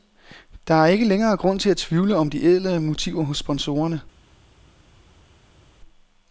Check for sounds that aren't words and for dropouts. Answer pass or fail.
pass